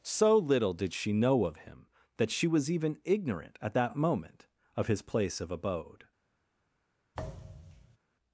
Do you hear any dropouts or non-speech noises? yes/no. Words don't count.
yes